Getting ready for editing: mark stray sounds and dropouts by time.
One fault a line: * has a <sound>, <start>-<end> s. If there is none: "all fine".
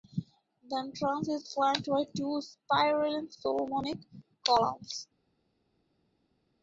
all fine